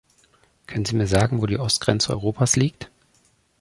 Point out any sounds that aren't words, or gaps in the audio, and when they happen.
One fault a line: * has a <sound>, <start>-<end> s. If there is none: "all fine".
all fine